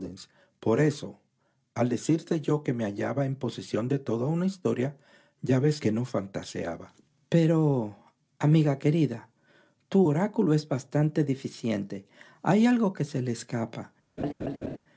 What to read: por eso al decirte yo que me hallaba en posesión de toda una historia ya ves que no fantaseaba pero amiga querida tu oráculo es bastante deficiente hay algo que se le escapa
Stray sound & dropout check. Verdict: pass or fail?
fail